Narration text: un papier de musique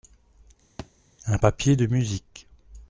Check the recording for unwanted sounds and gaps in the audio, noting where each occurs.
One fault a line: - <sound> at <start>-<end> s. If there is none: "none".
- thud at 0.8-0.9 s